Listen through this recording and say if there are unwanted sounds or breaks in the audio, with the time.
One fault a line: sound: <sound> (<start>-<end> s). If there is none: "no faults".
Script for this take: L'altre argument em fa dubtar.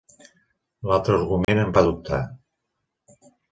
sound: dropout (1.4-1.5 s)